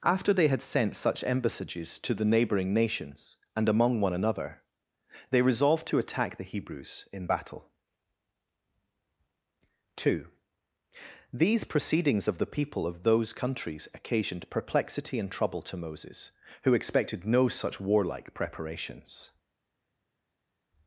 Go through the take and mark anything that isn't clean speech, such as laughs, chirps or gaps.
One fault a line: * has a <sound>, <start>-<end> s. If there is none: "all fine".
all fine